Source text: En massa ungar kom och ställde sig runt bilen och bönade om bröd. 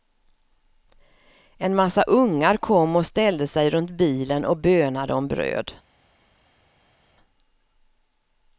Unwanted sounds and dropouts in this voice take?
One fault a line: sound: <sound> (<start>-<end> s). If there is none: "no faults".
no faults